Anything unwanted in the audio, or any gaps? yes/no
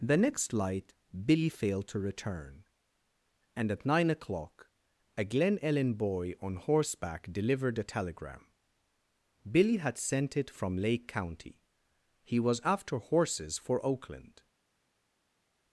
no